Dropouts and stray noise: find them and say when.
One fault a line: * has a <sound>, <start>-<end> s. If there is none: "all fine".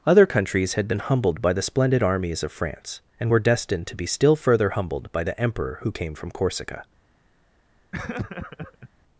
* has a laugh, 7.9-8.9 s